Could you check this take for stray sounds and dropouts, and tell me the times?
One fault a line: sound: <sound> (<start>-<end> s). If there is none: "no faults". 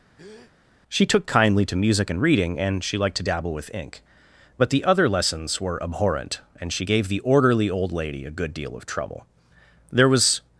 sound: breath (0.2-0.5 s)